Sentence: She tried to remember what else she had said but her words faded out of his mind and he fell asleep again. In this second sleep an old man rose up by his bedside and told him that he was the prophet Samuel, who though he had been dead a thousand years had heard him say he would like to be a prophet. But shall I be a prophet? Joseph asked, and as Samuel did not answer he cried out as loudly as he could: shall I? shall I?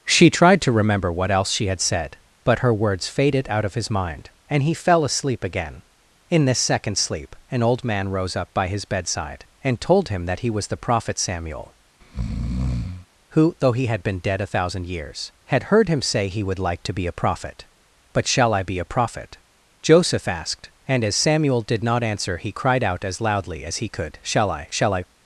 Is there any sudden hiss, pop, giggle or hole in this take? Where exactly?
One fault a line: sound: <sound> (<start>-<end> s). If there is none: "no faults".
sound: breath (12.0-13.1 s)